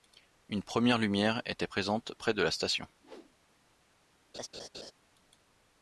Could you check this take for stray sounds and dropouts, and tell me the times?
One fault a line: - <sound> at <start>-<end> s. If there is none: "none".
- whoosh at 3.0-3.4 s
- laugh at 4.3-4.9 s